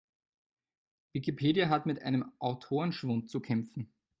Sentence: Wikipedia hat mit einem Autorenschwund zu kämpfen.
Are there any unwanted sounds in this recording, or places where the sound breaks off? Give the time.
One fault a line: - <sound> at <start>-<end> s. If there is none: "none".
none